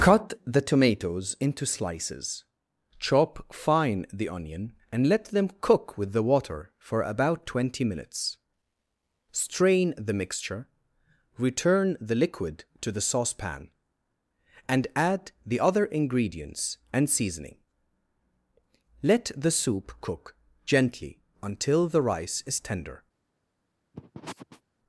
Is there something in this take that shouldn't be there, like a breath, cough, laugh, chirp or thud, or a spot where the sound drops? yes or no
yes